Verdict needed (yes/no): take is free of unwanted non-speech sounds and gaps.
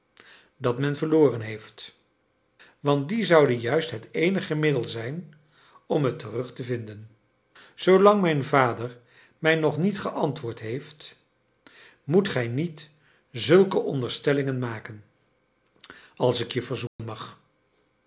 no